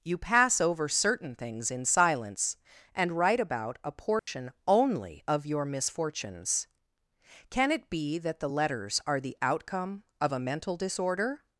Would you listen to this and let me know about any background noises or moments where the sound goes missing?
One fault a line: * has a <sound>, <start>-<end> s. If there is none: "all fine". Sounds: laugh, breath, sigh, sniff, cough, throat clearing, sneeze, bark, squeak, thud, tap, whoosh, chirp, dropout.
* has a dropout, 4.2-4.3 s